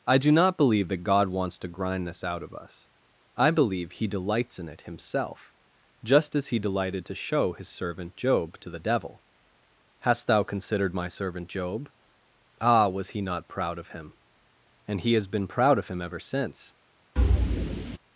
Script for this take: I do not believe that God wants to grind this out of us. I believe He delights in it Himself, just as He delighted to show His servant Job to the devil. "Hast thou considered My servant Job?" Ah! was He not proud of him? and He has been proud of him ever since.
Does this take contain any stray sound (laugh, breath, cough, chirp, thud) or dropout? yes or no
yes